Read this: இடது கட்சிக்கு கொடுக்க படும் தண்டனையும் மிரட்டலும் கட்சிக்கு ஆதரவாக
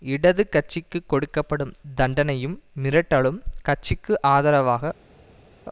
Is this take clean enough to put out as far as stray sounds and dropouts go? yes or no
yes